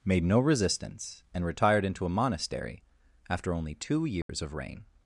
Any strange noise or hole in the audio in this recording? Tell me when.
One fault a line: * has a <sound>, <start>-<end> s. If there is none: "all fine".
* has a dropout, 4.2-4.3 s